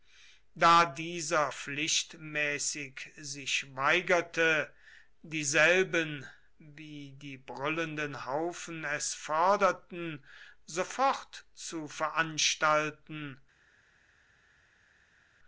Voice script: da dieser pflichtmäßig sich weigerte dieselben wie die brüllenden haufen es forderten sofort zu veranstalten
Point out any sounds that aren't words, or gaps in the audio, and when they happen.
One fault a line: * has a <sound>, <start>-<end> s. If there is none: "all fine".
all fine